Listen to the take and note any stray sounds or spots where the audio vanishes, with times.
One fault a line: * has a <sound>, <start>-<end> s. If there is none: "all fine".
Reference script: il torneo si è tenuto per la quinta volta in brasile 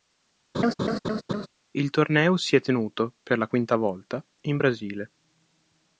* has a laugh, 0.5-1.5 s